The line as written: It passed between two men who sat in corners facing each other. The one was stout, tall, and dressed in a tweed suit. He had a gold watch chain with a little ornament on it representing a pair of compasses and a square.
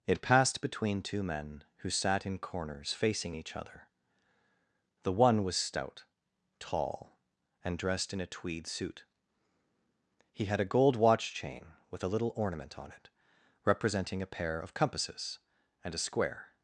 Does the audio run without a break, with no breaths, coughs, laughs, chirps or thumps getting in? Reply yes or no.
yes